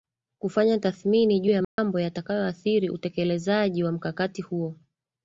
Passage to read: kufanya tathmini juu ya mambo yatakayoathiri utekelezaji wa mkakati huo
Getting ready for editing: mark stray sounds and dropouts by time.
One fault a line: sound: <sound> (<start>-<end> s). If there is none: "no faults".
sound: dropout (1.6-1.8 s)